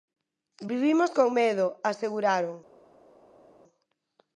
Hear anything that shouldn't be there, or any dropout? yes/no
no